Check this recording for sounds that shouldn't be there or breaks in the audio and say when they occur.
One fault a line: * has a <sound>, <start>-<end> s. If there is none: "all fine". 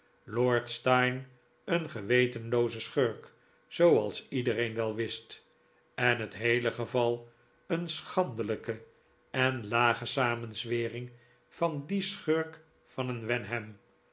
all fine